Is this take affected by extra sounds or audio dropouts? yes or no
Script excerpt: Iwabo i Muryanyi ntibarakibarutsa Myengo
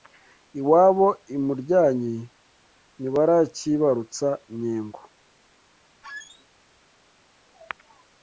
yes